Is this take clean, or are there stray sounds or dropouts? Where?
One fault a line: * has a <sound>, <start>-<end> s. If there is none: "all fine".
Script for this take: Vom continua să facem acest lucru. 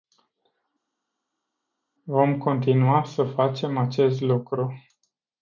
all fine